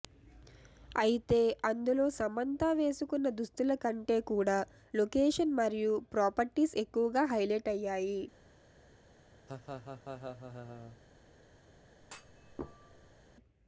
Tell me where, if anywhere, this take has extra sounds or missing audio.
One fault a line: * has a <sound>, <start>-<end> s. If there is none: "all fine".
* has a laugh, 9.5-11.0 s
* has a thud, 12.0-13.2 s